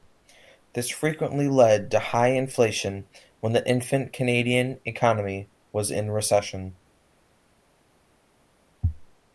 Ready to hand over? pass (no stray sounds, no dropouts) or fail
pass